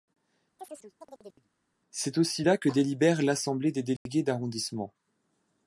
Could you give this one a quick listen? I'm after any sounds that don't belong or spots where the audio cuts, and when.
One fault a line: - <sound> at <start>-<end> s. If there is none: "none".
- chirp at 0.6-1.5 s
- dropout at 4.0-4.1 s